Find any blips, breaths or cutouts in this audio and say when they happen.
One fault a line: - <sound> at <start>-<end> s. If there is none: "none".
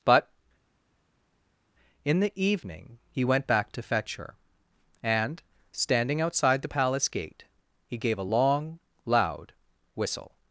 none